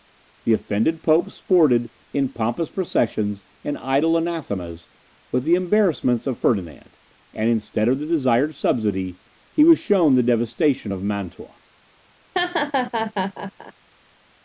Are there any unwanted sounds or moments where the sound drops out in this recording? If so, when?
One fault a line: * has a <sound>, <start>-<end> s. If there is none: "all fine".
* has a laugh, 12.3-13.7 s